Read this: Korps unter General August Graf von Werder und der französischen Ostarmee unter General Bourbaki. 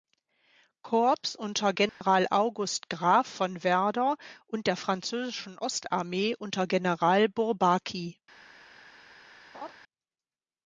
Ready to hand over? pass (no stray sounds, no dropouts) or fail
fail